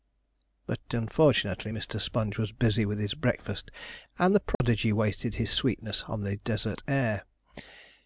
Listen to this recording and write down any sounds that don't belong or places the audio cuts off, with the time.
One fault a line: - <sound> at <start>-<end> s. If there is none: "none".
- dropout at 4.5-4.6 s